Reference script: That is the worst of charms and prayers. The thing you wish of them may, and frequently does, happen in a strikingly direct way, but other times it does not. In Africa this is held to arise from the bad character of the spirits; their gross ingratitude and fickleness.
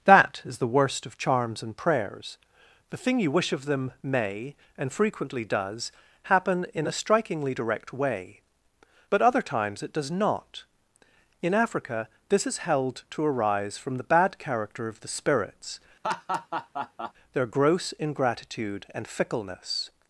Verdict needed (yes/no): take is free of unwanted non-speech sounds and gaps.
no